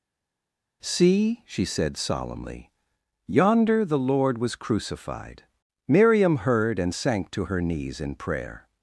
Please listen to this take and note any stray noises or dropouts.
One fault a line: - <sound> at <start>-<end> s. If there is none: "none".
none